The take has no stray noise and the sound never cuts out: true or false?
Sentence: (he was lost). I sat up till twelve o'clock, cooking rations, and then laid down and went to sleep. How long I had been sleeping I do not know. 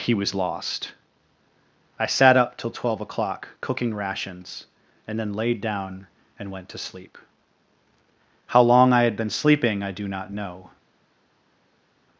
true